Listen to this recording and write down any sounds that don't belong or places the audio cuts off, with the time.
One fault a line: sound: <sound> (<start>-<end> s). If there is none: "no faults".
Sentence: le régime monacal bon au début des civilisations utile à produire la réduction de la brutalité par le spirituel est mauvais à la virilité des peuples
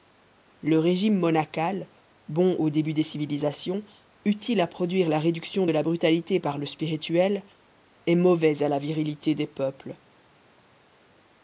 no faults